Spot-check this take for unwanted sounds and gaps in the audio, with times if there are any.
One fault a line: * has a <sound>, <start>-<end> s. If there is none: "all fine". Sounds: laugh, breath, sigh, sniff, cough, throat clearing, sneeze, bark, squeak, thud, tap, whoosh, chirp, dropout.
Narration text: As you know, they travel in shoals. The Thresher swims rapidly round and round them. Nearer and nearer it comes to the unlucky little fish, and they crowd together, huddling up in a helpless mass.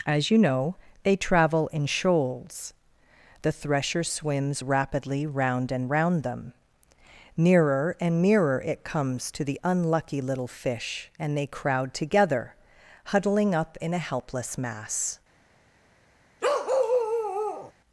* has a bark, 16.4-17.7 s